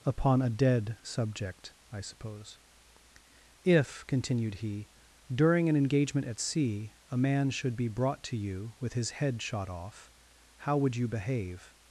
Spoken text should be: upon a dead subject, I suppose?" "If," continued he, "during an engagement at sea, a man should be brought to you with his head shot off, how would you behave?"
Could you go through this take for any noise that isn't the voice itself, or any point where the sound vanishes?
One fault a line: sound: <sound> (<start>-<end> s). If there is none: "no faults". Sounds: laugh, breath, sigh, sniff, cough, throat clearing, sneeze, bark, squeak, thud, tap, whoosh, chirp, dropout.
no faults